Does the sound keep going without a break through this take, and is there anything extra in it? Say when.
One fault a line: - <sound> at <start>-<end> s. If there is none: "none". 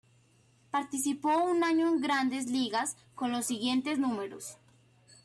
none